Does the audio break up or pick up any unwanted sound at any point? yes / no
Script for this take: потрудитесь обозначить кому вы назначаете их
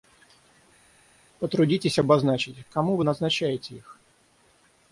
no